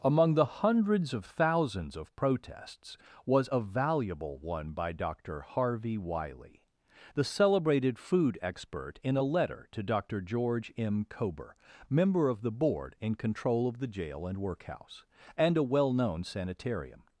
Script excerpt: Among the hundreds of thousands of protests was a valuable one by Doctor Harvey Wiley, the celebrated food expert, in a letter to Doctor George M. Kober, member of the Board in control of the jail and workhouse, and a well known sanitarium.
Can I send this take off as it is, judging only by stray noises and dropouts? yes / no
yes